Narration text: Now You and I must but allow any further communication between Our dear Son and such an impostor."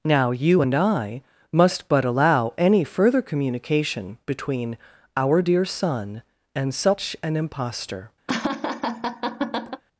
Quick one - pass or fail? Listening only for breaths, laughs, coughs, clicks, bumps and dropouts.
fail